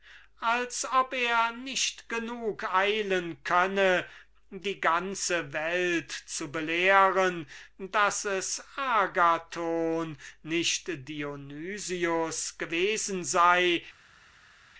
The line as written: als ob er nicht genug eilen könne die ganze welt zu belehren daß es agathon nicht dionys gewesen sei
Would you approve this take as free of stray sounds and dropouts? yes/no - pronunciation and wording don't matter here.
yes